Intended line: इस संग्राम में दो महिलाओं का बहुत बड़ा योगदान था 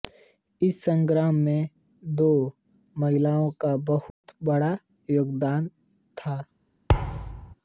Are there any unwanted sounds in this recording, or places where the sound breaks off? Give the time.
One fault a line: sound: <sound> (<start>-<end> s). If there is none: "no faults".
sound: dropout (4.1-4.2 s)
sound: thud (6.9-7.5 s)